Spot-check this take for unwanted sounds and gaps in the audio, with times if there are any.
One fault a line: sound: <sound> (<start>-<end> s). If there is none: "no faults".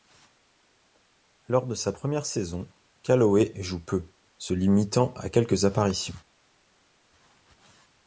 no faults